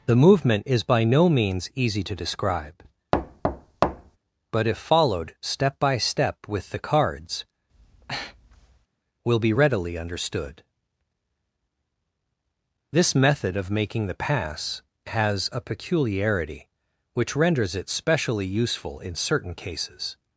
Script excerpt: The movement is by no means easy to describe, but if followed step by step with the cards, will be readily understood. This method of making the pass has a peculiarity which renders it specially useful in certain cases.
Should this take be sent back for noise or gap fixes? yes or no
yes